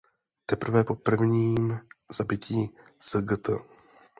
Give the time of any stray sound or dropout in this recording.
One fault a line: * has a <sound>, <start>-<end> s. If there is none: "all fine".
all fine